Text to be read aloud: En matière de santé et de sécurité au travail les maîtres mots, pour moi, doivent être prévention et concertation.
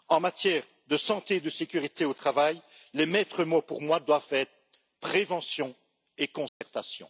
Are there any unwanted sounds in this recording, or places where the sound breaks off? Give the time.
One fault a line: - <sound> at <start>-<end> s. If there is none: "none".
- dropout at 6.5-6.6 s